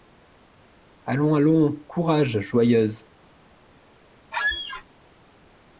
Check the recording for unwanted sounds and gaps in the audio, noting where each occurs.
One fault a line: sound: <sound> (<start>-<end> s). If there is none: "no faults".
sound: squeak (4.3-4.8 s)